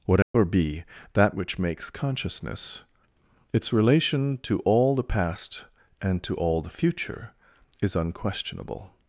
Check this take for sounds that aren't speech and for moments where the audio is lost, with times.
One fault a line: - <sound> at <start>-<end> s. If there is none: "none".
- dropout at 0.2-0.3 s